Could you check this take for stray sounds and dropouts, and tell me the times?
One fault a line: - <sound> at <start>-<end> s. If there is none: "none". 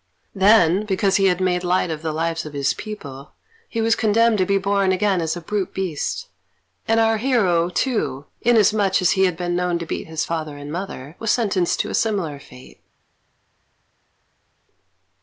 none